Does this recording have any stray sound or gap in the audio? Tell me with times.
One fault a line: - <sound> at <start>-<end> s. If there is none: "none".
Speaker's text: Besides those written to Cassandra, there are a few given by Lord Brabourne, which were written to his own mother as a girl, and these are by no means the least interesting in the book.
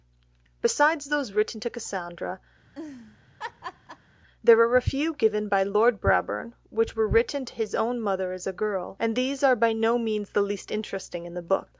- laugh at 2.6-4.1 s